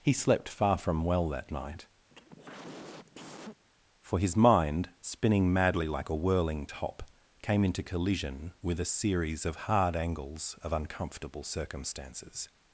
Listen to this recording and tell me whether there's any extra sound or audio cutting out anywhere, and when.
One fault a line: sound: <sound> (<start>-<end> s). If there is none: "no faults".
sound: cough (2.1-3.7 s)